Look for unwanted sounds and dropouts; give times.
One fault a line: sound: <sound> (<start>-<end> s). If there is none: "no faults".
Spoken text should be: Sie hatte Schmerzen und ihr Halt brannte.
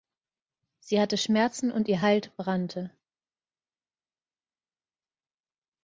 no faults